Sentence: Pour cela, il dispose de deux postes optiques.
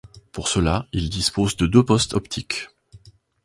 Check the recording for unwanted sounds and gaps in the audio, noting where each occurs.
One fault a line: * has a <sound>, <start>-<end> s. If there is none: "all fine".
all fine